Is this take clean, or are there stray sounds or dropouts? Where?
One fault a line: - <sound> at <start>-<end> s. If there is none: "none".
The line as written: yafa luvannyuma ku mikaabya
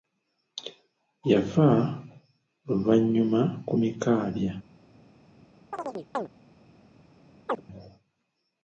- chirp at 5.7-6.3 s
- chirp at 7.5-7.6 s